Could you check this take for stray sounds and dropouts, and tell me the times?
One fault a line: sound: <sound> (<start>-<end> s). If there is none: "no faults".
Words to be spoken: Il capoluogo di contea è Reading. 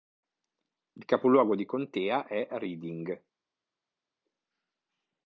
no faults